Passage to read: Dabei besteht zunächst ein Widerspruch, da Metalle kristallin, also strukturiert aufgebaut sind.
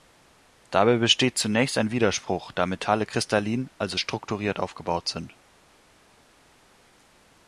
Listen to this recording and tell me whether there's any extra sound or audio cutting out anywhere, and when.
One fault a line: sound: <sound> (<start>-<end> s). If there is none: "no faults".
no faults